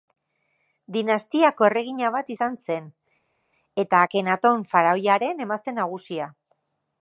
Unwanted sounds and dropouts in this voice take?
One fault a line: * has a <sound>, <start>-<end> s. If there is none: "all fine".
all fine